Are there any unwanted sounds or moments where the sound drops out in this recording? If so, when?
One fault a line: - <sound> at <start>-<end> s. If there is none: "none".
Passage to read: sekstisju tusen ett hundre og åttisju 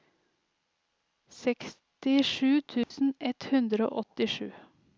- dropout at 2.8-2.9 s